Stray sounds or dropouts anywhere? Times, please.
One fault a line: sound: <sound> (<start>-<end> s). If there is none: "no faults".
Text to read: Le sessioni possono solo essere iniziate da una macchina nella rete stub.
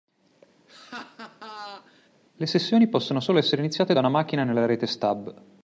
sound: laugh (0.7-2.1 s)